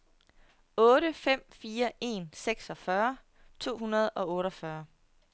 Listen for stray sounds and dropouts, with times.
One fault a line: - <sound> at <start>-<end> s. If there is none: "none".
none